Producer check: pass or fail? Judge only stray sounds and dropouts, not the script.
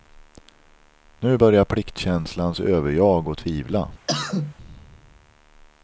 fail